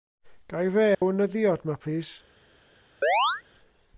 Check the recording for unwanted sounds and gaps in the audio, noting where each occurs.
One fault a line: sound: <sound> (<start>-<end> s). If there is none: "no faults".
sound: dropout (0.9-1.0 s)
sound: chirp (3.0-3.4 s)